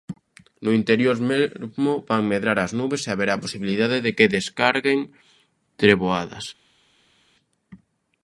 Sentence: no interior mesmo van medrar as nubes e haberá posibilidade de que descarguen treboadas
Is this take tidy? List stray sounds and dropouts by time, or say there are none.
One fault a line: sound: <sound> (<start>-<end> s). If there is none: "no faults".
no faults